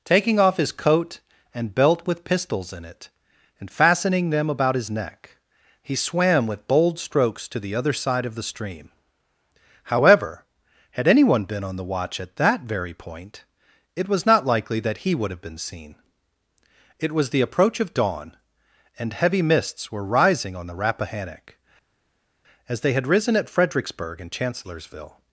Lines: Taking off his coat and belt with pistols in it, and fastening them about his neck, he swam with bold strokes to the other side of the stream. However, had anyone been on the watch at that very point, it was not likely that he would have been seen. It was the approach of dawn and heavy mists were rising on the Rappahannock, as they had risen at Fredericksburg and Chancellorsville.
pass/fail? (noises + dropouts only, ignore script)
pass